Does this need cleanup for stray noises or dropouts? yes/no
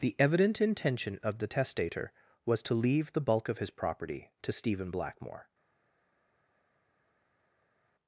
no